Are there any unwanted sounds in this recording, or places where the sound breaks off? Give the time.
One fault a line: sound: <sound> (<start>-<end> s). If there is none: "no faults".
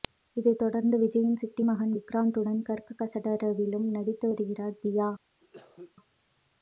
sound: cough (5.4-5.9 s)